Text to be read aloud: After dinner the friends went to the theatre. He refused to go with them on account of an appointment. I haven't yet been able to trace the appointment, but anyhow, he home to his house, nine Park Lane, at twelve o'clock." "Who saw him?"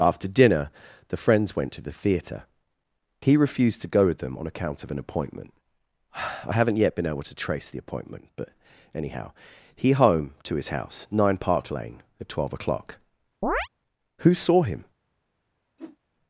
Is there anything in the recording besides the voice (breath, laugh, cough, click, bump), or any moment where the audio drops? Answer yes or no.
yes